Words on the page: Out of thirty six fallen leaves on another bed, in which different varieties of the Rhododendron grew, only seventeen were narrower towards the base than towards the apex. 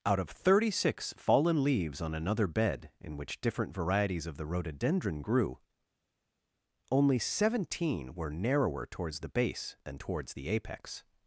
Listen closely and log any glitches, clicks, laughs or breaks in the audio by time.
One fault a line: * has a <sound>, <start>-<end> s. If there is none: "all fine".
all fine